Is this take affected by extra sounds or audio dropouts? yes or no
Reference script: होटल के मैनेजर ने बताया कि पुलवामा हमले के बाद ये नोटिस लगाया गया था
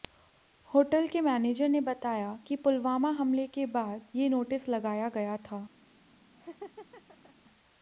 yes